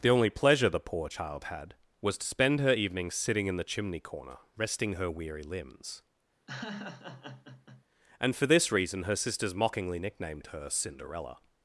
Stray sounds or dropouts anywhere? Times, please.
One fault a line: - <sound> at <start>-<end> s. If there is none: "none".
- laugh at 6.5-7.8 s